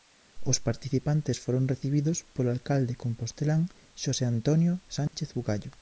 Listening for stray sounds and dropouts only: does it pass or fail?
fail